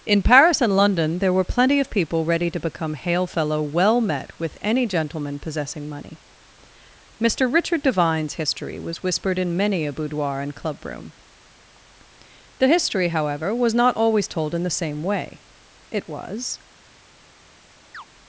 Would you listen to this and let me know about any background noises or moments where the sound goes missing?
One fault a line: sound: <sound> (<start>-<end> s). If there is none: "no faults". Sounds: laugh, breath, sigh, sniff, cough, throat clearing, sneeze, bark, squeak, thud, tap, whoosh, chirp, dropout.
sound: chirp (17.9-18.0 s)